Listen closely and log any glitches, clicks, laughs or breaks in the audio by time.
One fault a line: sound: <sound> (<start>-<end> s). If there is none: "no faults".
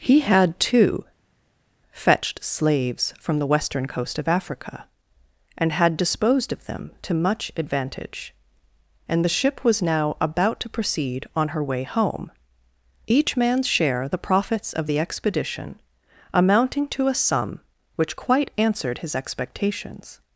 no faults